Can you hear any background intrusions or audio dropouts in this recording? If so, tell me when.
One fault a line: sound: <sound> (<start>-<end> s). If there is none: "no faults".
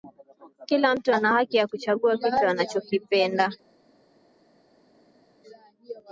no faults